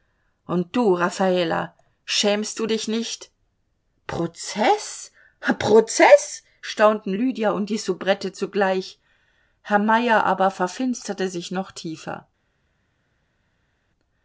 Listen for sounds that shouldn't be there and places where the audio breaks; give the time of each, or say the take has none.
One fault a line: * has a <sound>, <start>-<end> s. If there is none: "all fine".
all fine